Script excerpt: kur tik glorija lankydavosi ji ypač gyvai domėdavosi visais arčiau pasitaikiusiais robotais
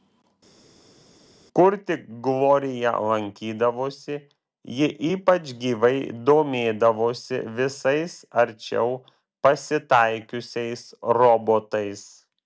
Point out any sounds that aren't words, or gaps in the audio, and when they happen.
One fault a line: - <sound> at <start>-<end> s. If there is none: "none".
none